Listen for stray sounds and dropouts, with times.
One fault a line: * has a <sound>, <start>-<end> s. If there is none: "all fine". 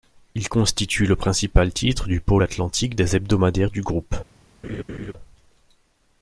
* has a laugh, 4.6-5.1 s